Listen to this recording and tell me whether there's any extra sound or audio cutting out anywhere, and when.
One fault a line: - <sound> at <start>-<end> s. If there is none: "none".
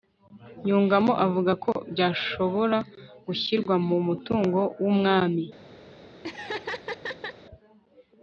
- laugh at 6.2-7.4 s